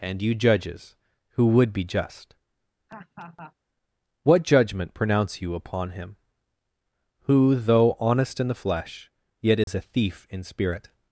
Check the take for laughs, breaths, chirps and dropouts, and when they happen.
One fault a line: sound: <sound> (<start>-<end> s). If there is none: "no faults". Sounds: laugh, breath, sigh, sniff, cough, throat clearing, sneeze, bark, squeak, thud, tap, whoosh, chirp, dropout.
sound: laugh (2.9-3.5 s)
sound: dropout (9.6-9.7 s)